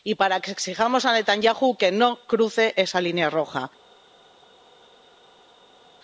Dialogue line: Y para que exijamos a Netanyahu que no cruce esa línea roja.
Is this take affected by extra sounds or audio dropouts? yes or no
no